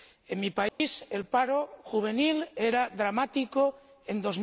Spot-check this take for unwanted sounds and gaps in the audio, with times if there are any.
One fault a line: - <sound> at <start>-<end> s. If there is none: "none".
- dropout at 0.7-0.8 s